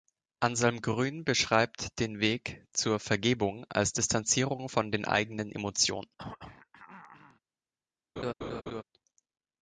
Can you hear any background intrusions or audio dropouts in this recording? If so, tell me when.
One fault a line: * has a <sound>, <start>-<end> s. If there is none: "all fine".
* has a throat clearing, 6.2-7.4 s
* has a laugh, 8.2-8.8 s